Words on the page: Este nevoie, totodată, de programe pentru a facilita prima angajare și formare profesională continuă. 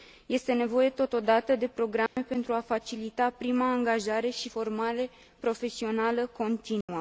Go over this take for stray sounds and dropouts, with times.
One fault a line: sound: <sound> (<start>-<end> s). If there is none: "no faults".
sound: dropout (2.1-2.2 s)
sound: dropout (6.8-6.9 s)